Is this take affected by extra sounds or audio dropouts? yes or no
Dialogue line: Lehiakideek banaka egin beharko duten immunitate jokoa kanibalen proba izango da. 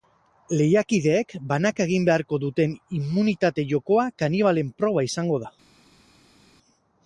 no